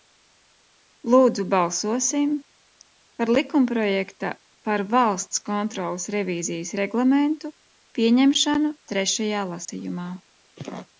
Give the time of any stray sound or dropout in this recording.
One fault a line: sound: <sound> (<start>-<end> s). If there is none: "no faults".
sound: dropout (9.6-9.7 s)